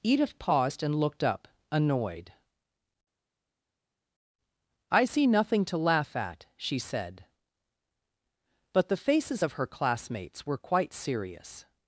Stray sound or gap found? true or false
false